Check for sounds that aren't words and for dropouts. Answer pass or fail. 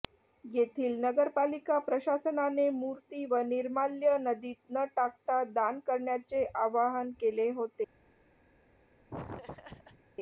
fail